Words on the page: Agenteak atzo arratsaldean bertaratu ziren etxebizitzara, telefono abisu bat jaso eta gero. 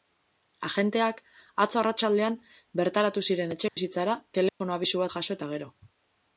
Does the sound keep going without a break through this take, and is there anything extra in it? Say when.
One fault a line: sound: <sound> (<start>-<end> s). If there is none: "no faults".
sound: dropout (3.7-3.8 s)
sound: dropout (4.5-4.6 s)